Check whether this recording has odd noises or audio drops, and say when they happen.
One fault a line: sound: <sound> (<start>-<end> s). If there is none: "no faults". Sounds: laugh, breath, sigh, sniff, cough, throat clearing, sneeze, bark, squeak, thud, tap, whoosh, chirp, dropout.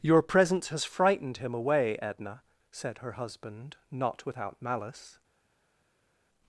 no faults